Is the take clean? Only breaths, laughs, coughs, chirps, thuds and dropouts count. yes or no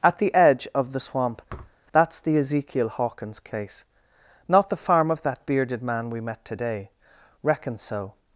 no